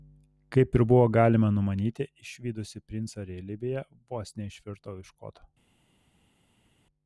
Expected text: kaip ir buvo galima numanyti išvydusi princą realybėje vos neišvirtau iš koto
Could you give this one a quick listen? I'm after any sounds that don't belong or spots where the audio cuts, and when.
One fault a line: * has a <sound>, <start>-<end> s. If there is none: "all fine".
all fine